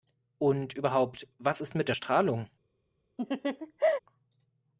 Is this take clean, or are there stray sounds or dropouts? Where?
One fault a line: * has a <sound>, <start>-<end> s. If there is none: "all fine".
* has a laugh, 3.2-4.0 s